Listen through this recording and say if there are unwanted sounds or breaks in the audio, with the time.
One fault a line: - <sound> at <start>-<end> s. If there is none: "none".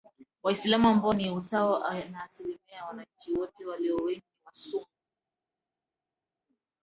none